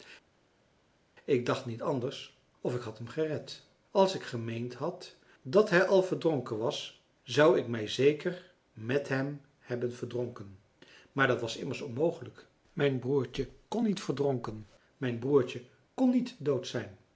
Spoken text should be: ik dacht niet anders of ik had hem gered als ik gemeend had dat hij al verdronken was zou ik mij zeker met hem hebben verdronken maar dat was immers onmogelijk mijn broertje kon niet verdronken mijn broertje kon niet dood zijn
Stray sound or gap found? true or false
false